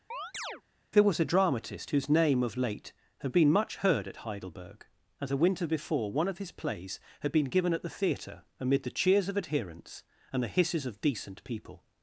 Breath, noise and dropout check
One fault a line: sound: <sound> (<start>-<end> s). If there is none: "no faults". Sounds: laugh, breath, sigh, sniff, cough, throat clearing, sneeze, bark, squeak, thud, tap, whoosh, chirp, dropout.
sound: chirp (0.1-0.6 s)